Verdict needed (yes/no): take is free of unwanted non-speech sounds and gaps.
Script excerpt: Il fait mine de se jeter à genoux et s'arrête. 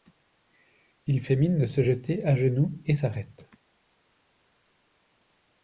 yes